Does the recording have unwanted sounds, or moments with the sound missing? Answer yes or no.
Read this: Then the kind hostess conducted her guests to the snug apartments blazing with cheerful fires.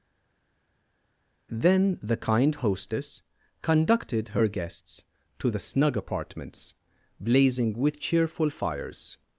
no